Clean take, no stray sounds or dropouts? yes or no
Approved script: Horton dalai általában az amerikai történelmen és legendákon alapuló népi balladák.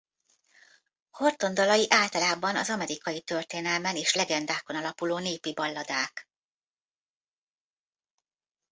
yes